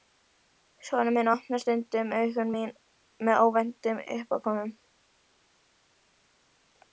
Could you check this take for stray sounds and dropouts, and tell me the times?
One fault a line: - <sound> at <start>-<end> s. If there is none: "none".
none